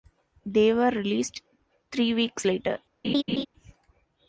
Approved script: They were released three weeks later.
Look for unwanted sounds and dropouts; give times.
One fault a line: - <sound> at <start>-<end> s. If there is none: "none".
- laugh at 3.0-3.5 s